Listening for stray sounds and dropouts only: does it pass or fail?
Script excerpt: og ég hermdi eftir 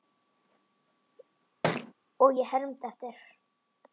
fail